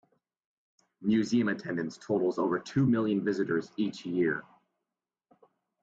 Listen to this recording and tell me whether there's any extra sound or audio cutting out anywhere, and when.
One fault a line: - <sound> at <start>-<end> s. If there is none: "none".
none